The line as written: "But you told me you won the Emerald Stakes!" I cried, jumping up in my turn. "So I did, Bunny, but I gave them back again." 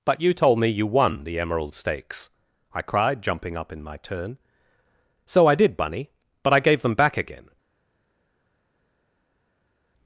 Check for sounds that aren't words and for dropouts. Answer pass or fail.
pass